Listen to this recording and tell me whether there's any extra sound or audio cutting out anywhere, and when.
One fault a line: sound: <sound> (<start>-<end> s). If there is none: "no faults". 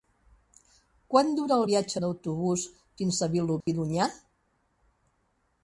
sound: dropout (3.6-3.7 s)